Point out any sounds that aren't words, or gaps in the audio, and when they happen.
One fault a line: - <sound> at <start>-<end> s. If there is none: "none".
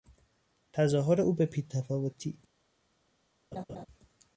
- laugh at 3.5-3.9 s